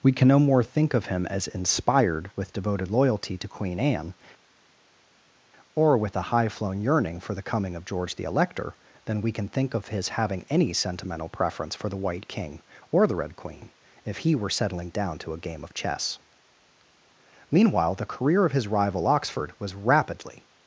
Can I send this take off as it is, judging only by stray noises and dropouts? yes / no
yes